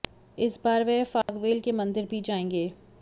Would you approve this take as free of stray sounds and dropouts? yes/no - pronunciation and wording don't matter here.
no